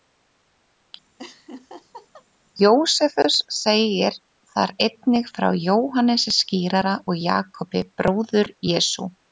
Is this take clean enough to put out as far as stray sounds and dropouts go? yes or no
no